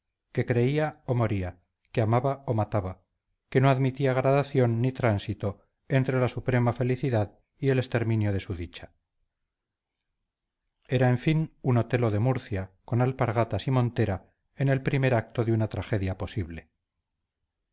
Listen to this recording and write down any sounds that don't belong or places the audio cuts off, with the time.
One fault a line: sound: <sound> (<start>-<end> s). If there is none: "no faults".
no faults